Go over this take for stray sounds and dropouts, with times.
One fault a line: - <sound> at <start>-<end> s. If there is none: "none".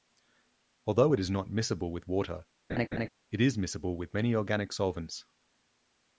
- laugh at 2.7-3.1 s